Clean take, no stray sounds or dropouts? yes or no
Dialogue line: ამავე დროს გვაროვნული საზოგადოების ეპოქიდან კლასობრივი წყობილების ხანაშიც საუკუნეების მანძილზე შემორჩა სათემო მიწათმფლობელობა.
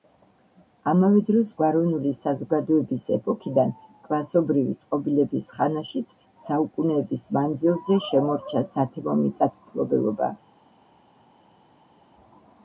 yes